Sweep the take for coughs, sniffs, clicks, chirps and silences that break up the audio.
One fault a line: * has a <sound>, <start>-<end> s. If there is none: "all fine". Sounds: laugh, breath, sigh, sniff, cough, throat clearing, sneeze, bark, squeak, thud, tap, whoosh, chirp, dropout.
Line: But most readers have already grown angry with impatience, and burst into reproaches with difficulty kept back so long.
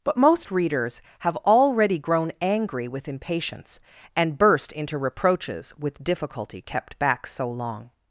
all fine